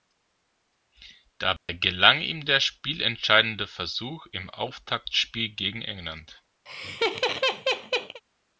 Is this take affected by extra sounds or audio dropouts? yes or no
yes